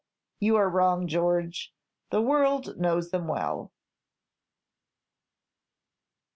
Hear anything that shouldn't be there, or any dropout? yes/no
no